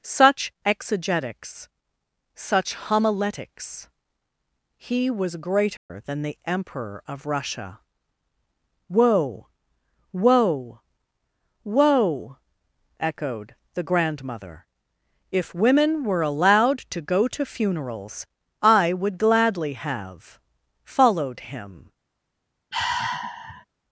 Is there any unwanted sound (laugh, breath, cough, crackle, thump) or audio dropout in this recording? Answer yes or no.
yes